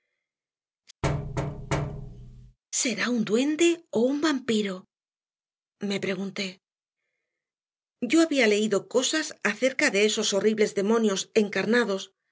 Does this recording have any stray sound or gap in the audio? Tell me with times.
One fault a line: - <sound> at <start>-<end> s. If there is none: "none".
- thud at 1.0-2.6 s